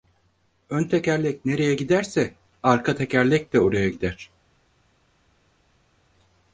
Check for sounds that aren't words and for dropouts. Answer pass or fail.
pass